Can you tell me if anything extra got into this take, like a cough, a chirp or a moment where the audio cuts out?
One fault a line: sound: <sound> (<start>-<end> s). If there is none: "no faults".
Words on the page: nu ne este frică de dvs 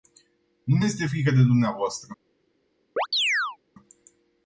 sound: chirp (3.0-3.6 s)